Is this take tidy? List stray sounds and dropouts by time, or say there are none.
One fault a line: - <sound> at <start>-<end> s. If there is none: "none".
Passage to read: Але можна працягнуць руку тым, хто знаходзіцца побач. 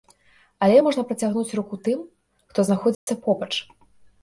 - dropout at 2.9-3.1 s